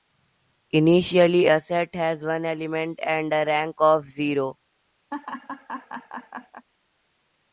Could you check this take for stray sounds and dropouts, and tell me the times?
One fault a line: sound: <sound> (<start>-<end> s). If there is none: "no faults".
sound: laugh (5.1-6.7 s)